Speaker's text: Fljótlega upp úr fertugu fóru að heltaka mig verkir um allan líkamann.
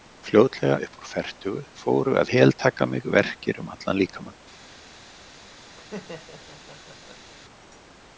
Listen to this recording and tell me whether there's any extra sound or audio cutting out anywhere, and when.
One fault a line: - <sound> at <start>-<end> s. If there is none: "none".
- laugh at 5.7-7.3 s